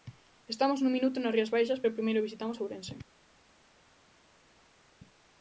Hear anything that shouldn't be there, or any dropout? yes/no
no